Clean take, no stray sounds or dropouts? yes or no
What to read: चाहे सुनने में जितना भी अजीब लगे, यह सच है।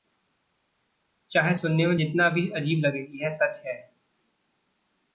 yes